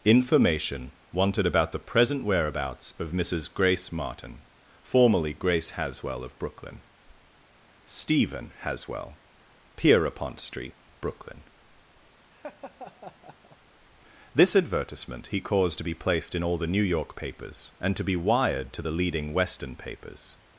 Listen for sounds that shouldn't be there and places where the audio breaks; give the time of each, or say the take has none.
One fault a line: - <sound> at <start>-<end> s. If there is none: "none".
- laugh at 12.3-13.6 s